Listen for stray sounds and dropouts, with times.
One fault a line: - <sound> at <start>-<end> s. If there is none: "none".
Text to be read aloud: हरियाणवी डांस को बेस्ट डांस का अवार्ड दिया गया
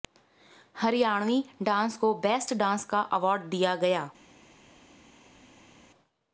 none